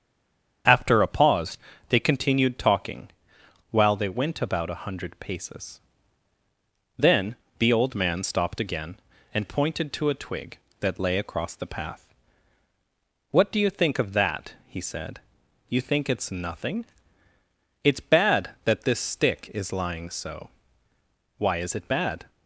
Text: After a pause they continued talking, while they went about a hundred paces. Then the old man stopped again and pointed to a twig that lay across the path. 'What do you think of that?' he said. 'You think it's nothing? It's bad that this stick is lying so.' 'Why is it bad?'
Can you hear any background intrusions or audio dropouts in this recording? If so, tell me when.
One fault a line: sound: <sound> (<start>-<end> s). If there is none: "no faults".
no faults